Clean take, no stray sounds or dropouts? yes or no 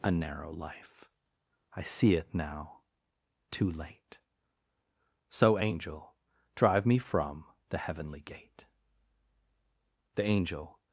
yes